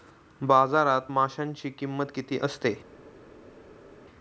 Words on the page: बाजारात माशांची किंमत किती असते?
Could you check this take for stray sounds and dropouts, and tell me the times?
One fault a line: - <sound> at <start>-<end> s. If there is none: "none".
none